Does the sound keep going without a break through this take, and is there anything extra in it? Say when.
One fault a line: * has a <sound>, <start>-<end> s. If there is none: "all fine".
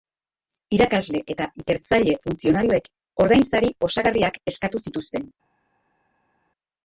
all fine